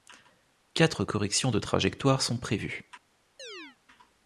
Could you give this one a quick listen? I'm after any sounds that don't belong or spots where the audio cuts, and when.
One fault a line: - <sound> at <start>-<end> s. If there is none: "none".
- chirp at 3.4-3.8 s